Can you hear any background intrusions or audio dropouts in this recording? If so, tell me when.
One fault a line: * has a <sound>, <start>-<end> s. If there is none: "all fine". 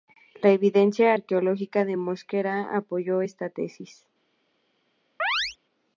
* has a chirp, 5.2-5.6 s